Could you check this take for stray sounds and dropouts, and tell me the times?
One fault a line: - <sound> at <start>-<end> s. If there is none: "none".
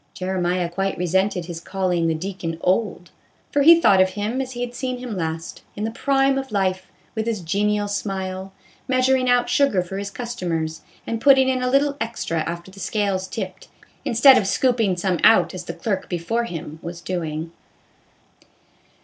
none